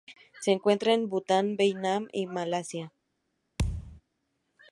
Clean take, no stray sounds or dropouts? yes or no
no